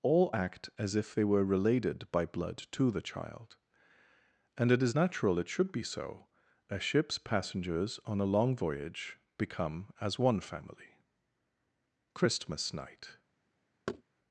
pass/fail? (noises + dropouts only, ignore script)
fail